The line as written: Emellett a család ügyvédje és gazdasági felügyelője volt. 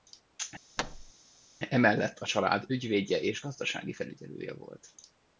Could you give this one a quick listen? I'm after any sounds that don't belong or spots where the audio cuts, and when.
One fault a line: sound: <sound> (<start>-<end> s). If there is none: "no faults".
sound: thud (0.8-1.1 s)